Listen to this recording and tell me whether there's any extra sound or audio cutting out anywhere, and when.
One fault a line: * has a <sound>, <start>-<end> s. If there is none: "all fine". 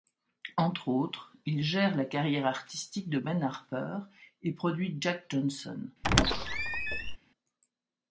* has a squeak, 6.0-7.2 s